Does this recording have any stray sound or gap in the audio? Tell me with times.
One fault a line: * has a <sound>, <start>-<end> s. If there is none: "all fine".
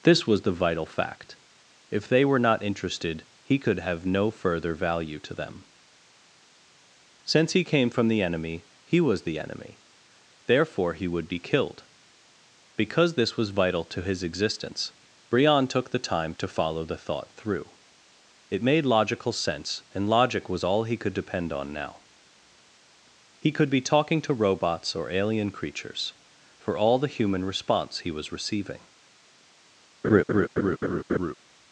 * has a laugh, 30.0-31.3 s